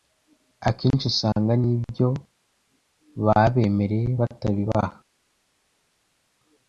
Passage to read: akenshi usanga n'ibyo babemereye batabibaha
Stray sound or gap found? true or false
false